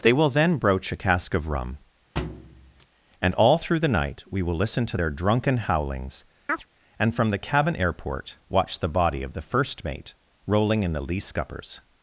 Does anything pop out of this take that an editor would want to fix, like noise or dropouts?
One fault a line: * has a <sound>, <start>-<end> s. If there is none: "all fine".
* has a thud, 2.2-2.9 s
* has a chirp, 6.5-6.7 s